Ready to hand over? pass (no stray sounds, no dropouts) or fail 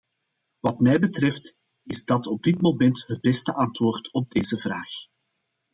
pass